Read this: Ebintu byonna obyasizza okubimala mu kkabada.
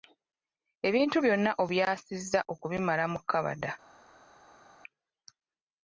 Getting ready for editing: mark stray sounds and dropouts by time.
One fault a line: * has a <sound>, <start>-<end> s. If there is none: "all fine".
all fine